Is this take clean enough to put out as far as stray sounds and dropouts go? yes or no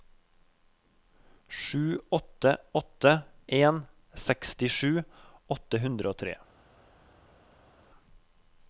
yes